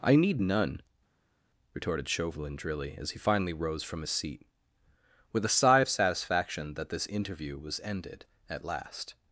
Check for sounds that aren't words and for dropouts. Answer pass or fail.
pass